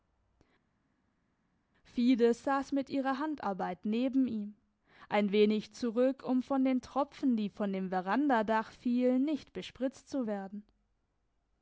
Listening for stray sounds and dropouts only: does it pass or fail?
pass